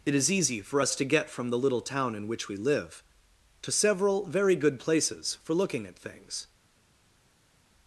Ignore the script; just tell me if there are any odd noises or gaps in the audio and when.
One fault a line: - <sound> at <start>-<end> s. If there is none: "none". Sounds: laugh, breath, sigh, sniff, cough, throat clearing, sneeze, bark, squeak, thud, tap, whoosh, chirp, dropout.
none